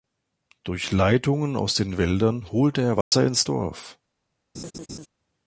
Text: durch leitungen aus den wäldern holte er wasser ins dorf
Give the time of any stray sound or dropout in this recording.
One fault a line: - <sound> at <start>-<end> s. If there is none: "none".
- dropout at 3.0-3.1 s
- laugh at 4.5-5.1 s